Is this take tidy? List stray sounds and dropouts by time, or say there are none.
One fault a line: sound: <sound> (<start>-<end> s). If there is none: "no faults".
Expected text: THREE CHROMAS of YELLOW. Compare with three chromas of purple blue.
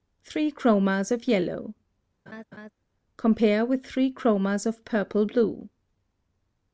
sound: laugh (2.3-2.7 s)